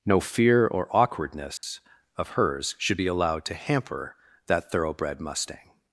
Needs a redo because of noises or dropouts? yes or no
yes